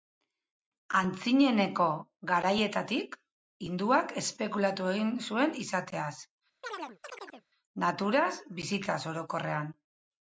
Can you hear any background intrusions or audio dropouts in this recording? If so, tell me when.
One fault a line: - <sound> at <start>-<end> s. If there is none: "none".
- chirp at 6.6-7.5 s